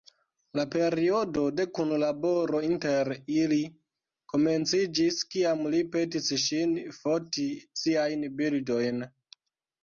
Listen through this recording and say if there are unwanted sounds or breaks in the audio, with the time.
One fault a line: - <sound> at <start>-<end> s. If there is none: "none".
none